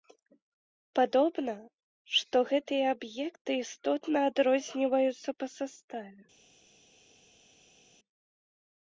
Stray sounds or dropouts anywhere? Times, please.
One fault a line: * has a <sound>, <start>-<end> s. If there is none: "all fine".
all fine